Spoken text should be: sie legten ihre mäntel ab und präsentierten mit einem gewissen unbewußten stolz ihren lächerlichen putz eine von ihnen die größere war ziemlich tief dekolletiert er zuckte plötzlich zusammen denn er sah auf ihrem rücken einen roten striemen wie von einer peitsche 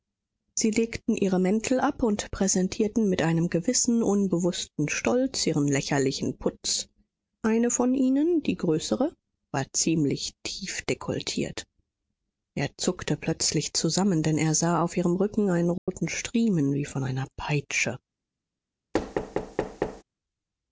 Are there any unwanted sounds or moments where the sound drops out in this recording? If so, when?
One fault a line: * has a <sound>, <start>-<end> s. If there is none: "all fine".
* has a dropout, 15.8-15.9 s
* has a thud, 18.9-20.0 s